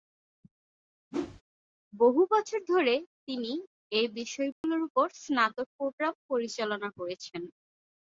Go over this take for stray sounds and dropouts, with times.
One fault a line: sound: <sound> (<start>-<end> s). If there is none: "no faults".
sound: whoosh (1.1-1.4 s)
sound: dropout (4.5-4.6 s)